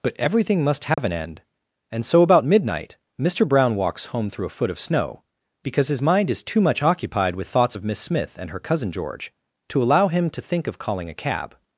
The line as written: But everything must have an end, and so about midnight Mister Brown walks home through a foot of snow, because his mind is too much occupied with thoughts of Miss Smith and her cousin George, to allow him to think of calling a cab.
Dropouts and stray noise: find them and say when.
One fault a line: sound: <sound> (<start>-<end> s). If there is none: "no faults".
sound: dropout (0.9-1.0 s)